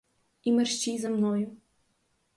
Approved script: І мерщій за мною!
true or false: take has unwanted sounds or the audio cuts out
false